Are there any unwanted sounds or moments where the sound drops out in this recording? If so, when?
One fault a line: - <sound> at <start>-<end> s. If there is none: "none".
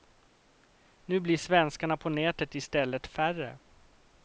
none